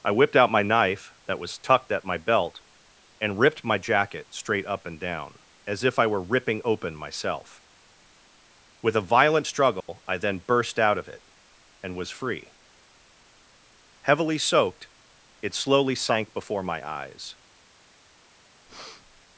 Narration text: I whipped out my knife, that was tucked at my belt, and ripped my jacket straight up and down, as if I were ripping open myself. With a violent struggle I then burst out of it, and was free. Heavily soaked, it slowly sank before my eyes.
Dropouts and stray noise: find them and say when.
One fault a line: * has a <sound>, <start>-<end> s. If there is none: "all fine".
* has a dropout, 9.8-9.9 s
* has a breath, 18.7-19.3 s